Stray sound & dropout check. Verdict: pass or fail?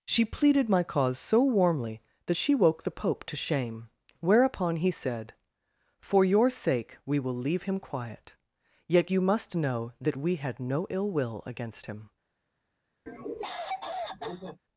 fail